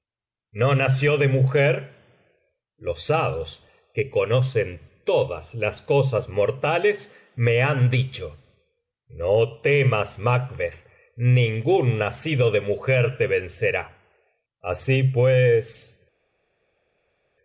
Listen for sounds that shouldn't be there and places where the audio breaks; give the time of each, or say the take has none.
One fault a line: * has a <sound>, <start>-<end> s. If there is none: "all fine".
all fine